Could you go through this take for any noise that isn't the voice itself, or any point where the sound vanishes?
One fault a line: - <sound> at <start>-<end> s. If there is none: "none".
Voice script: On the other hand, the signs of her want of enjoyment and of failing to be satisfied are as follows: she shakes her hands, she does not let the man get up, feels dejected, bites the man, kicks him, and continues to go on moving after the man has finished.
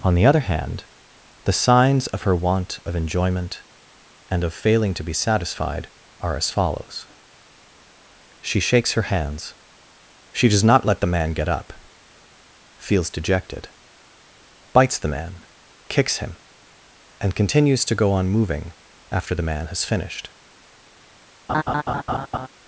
- laugh at 21.5-22.5 s